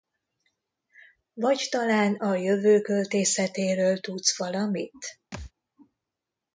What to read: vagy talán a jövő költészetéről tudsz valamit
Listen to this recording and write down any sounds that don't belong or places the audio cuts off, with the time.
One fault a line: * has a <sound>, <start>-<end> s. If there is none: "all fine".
* has a thud, 5.3-5.5 s